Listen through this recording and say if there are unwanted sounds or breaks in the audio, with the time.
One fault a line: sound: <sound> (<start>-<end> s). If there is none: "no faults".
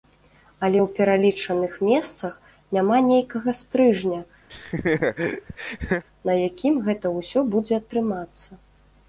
sound: laugh (4.5-6.0 s)